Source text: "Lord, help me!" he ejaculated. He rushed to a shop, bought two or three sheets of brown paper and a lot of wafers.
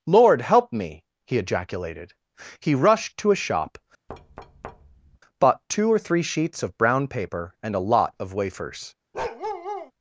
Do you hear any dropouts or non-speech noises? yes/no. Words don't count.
yes